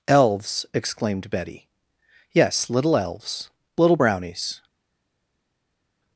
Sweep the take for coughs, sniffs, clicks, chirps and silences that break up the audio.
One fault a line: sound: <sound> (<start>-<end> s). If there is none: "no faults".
no faults